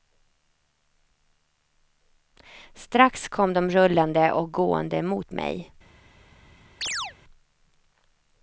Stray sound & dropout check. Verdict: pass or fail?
fail